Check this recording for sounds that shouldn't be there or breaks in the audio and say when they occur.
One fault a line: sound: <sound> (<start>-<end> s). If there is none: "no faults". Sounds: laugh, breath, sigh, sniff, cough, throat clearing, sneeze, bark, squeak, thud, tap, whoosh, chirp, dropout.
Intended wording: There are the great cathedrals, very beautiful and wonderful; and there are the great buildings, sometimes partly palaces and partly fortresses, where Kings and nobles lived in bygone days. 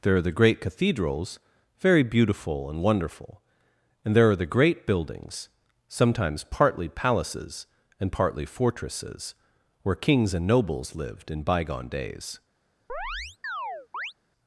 sound: chirp (12.9-14.1 s)